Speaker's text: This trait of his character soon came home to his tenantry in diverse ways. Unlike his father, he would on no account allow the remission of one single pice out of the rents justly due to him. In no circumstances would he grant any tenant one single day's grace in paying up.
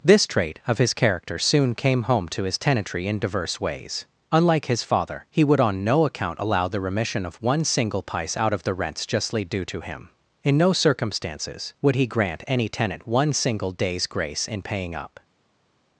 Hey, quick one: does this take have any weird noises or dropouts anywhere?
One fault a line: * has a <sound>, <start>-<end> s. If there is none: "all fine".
all fine